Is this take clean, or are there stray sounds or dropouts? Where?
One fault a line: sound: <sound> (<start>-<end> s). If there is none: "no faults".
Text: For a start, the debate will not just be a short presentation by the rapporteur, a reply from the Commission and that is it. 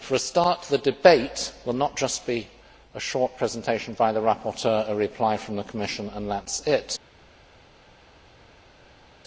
no faults